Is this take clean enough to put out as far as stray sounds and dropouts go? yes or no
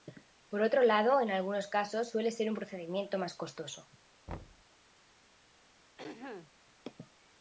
no